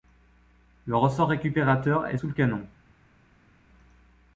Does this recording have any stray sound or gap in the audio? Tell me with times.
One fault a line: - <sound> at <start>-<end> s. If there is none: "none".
none